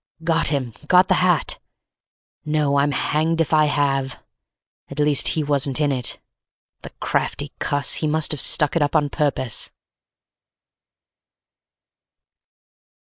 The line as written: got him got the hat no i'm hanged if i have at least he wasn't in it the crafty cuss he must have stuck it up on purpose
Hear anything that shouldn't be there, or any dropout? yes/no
no